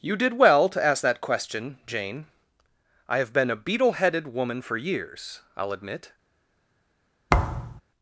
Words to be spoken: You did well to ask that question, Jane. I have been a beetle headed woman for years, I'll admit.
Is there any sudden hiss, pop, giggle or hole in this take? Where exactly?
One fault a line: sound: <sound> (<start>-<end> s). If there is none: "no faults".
sound: thud (7.3-7.8 s)